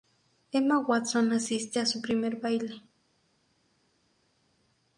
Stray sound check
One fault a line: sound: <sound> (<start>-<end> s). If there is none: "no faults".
no faults